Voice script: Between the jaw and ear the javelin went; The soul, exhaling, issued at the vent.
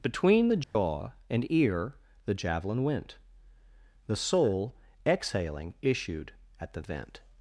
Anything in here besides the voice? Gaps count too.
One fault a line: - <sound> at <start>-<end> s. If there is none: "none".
- dropout at 0.6-0.8 s